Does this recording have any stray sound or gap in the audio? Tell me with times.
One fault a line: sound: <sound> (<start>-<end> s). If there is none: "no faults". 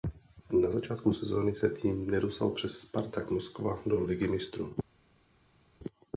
no faults